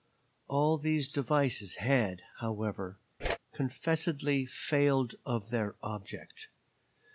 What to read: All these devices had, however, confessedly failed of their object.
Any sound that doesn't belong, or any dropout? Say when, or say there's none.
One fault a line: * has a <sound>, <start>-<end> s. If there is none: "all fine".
* has a whoosh, 3.2-3.4 s